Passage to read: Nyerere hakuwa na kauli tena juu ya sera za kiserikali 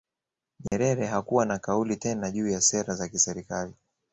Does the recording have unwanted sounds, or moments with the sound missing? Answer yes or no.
yes